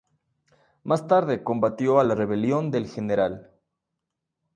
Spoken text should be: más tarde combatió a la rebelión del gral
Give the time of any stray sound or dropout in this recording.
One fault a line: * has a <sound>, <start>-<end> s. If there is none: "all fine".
all fine